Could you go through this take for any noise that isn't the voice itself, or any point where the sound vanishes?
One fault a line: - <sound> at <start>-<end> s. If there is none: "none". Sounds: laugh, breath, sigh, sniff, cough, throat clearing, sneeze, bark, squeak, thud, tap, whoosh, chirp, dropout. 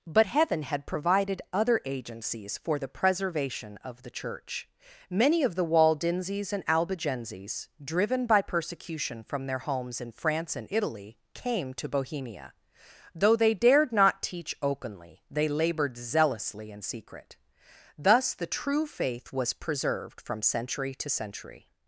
none